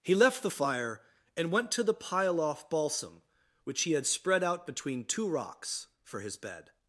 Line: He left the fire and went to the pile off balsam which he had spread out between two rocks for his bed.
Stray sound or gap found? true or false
false